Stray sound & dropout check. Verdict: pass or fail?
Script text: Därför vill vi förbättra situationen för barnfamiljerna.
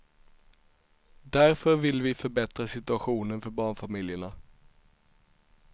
pass